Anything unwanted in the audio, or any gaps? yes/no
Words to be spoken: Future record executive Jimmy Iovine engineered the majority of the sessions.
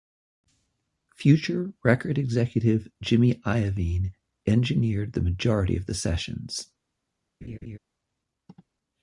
yes